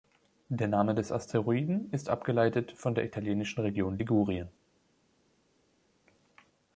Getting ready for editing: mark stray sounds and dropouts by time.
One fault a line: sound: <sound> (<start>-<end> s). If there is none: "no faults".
no faults